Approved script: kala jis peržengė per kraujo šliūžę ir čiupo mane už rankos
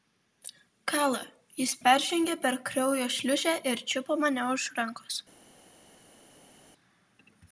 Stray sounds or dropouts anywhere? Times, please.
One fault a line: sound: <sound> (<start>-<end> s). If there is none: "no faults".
no faults